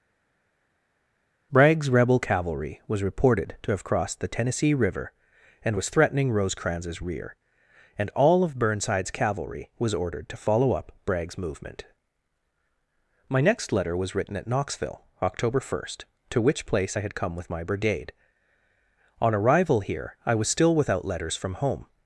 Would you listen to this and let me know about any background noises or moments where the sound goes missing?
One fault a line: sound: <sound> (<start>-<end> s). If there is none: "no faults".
no faults